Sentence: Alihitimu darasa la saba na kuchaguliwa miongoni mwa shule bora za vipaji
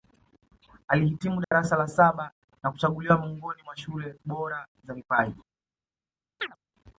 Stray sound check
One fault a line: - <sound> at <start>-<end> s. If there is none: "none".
- dropout at 1.4-1.5 s
- chirp at 6.4-6.6 s